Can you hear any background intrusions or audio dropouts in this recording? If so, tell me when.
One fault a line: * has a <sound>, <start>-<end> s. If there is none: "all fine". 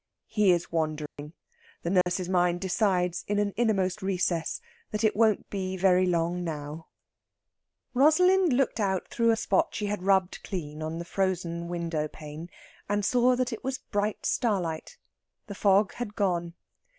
* has a dropout, 1.1-1.2 s
* has a dropout, 2.0-2.1 s